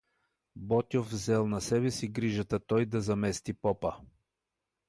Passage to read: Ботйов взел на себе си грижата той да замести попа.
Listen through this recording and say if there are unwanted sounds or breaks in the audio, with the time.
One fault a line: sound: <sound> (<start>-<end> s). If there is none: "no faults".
no faults